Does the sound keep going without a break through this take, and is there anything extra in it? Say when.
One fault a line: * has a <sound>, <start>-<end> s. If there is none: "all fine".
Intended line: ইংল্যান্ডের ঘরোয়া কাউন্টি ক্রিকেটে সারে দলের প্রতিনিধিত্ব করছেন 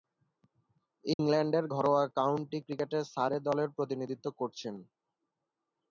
* has a dropout, 1.1-1.2 s